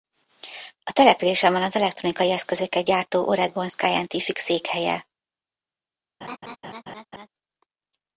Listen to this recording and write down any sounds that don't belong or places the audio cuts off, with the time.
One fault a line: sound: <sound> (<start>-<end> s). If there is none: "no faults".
sound: laugh (6.2-7.3 s)